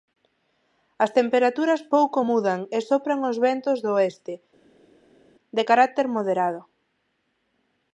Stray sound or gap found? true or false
false